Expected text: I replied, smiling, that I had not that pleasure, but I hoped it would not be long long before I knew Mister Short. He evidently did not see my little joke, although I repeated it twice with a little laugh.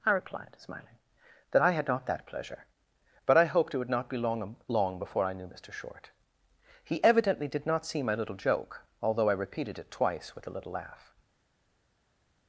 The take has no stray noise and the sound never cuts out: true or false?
true